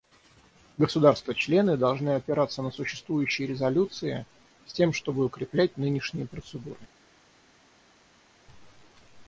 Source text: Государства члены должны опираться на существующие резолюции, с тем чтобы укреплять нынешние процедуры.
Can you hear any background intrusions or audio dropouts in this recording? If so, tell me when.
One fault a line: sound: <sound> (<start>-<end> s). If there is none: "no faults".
no faults